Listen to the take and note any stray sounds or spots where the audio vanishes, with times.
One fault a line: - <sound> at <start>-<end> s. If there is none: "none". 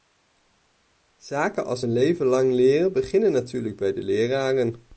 none